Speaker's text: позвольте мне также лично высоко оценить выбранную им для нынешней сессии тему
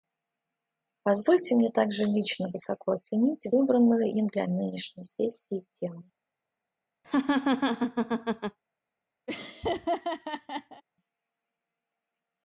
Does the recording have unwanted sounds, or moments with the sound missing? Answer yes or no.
yes